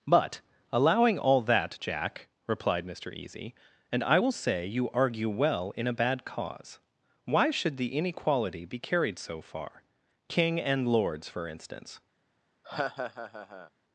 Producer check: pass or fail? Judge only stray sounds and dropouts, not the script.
fail